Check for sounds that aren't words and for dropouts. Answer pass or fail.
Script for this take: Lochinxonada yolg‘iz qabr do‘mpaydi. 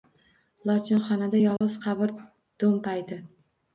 fail